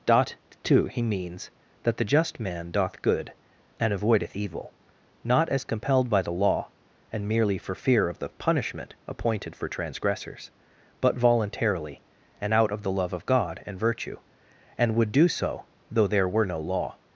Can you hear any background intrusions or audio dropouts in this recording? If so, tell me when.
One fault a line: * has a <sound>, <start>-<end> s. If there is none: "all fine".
all fine